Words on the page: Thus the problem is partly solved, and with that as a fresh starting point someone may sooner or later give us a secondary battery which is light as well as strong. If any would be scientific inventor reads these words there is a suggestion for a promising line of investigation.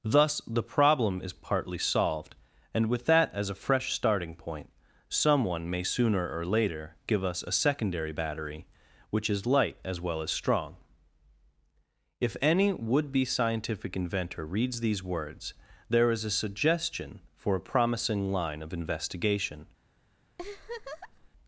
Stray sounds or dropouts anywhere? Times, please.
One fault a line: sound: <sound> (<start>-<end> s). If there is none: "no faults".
sound: laugh (20.4-21.3 s)